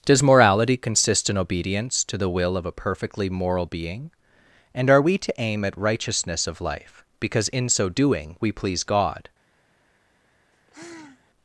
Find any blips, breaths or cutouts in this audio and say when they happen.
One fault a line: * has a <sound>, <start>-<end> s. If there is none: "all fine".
* has a sigh, 10.5-11.3 s